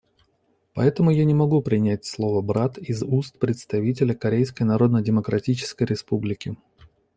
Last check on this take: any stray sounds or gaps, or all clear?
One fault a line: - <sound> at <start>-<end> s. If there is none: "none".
none